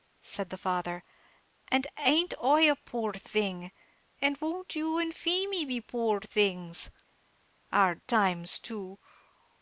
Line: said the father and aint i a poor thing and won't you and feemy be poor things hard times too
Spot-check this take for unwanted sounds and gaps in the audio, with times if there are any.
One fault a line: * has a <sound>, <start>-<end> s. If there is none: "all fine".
all fine